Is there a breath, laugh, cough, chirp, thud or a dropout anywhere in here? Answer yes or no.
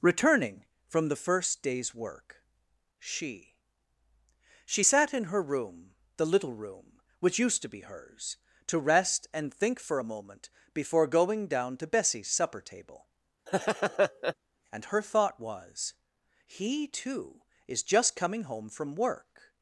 yes